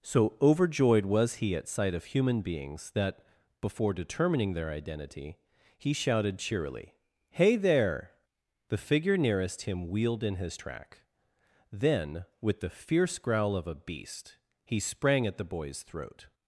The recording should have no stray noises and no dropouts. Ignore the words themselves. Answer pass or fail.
pass